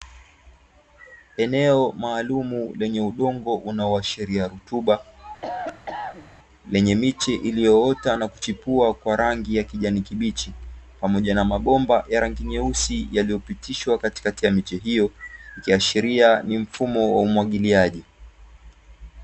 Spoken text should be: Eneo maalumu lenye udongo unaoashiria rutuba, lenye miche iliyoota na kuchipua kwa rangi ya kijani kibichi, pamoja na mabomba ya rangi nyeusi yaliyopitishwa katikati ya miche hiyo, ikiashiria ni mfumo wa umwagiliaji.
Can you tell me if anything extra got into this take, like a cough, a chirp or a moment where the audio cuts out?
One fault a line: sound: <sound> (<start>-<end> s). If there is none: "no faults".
sound: cough (5.4-6.3 s)